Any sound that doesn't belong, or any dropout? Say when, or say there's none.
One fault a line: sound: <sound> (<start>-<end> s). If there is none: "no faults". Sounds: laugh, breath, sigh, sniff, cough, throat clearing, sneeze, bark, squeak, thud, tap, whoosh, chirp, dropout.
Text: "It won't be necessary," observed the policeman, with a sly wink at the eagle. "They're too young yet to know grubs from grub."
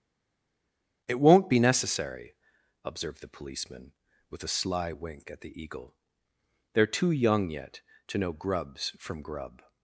no faults